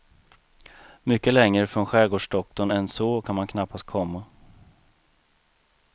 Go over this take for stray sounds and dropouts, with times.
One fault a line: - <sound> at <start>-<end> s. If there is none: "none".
none